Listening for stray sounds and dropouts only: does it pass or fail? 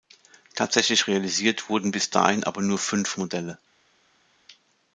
pass